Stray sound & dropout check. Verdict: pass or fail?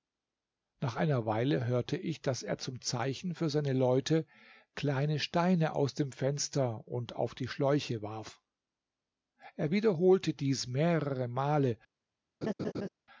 fail